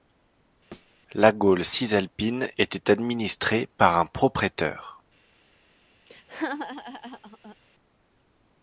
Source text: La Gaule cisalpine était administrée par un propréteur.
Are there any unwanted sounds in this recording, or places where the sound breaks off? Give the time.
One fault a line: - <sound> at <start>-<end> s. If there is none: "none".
- thud at 0.7-0.9 s
- laugh at 6.1-7.6 s